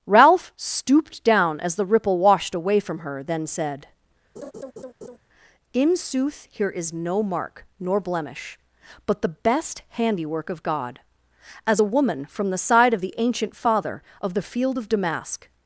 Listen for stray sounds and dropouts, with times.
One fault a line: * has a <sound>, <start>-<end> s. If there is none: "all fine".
* has a laugh, 4.4-5.2 s